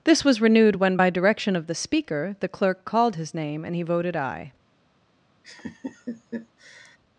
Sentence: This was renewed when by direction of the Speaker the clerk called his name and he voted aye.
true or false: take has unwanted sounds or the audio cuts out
true